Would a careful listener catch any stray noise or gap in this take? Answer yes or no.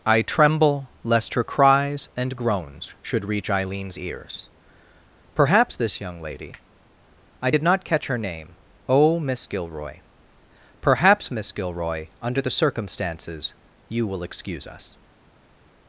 no